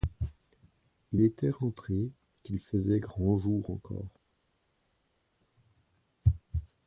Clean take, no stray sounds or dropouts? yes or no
yes